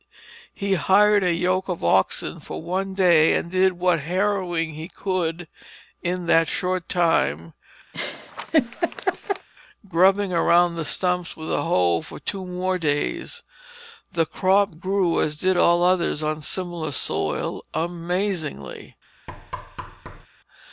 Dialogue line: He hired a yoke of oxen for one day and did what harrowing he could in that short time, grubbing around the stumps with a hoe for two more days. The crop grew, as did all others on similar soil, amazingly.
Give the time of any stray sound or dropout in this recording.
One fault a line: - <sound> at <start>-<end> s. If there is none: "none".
- laugh at 7.9-9.5 s
- thud at 19.3-20.3 s